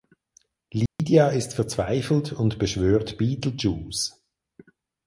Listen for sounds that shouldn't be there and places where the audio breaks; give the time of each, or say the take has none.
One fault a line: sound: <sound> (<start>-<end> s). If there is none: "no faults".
sound: dropout (0.9-1.0 s)